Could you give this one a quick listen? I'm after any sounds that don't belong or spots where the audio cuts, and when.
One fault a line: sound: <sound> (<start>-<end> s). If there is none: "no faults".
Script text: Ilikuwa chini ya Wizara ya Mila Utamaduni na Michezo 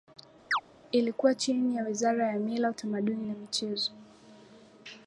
sound: chirp (0.5-0.6 s)